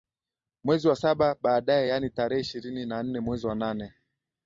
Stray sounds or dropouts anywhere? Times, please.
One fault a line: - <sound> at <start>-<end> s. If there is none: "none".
none